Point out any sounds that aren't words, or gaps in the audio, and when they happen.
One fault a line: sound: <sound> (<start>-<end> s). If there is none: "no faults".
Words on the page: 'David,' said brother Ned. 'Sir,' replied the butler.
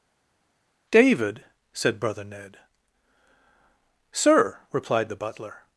no faults